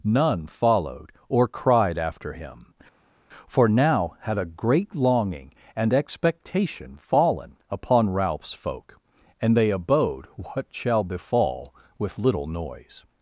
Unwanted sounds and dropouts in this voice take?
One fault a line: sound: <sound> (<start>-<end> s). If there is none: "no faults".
no faults